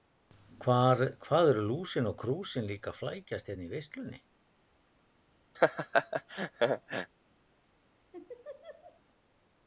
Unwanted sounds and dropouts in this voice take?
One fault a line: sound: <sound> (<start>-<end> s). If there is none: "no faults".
sound: laugh (5.5-7.1 s)
sound: laugh (8.1-9.0 s)